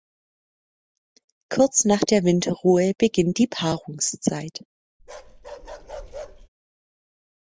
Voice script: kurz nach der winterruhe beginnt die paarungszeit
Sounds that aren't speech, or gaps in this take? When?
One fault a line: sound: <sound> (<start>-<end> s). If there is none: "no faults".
sound: bark (5.0-6.5 s)